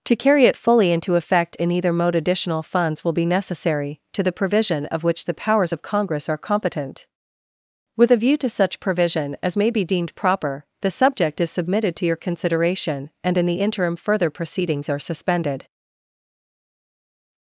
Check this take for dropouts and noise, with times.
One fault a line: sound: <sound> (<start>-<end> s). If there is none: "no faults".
no faults